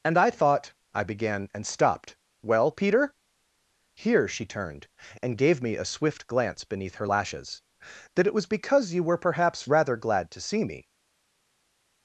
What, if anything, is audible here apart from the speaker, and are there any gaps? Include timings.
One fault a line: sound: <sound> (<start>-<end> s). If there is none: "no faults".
no faults